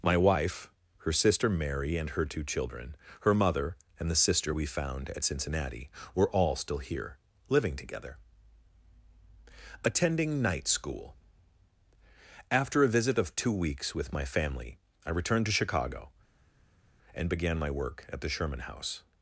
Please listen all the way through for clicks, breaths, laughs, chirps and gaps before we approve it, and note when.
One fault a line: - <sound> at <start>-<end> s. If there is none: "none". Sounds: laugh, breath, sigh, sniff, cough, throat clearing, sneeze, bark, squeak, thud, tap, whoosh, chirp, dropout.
none